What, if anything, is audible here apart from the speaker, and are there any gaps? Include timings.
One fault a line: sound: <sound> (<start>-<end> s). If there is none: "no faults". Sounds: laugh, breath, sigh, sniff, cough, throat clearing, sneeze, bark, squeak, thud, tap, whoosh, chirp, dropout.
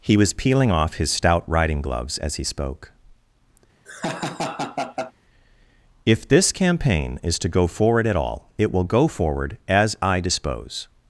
sound: laugh (3.8-5.1 s)